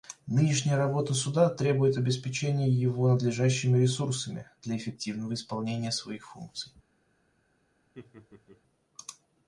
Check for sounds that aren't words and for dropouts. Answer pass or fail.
fail